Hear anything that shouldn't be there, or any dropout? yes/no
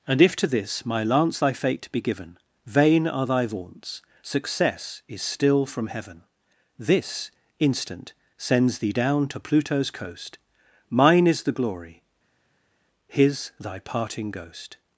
no